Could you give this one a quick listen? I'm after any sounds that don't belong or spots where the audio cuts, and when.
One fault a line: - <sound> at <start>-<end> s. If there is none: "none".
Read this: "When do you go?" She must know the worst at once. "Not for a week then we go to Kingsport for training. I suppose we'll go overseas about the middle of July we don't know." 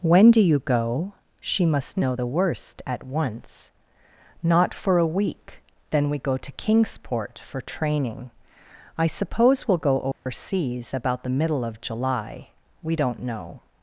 - dropout at 10.1-10.3 s